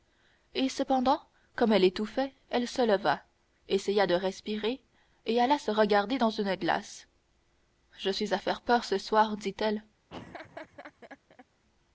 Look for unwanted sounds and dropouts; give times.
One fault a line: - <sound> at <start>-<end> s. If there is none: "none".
- laugh at 10.1-11.5 s